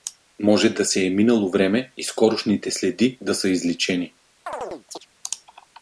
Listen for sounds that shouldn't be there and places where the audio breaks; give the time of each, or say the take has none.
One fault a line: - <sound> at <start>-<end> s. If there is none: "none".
- chirp at 4.5-5.1 s